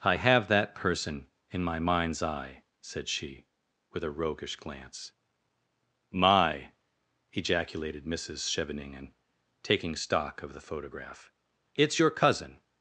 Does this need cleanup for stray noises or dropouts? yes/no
no